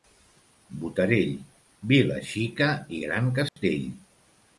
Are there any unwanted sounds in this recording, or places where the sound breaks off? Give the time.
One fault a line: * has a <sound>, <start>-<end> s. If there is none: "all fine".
* has a dropout, 3.5-3.6 s